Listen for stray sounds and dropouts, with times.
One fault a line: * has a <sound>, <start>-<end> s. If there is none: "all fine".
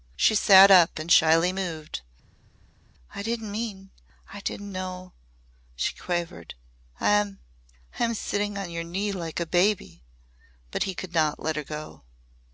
all fine